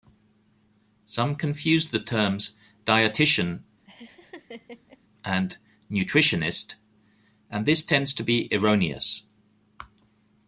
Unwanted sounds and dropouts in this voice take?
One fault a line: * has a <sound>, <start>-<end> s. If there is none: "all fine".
* has a laugh, 3.9-5.0 s